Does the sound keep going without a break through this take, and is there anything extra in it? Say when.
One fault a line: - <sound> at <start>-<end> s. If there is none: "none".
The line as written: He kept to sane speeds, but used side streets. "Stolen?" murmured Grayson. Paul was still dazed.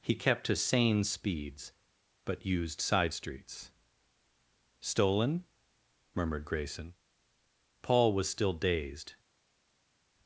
none